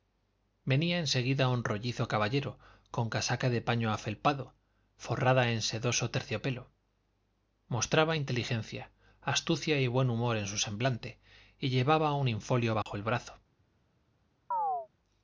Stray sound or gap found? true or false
true